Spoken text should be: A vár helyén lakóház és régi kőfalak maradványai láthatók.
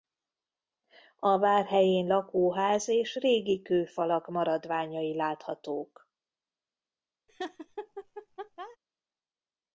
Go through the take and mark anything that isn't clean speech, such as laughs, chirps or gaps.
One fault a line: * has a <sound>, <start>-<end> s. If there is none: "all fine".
* has a laugh, 7.3-8.8 s